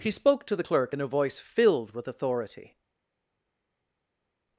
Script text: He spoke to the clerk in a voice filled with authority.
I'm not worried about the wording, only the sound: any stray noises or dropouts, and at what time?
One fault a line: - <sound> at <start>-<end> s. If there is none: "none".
none